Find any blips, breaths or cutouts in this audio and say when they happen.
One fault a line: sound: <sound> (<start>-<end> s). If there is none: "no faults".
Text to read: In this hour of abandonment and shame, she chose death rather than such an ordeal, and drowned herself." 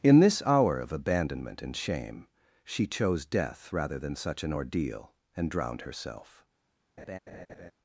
sound: laugh (7.0-7.7 s)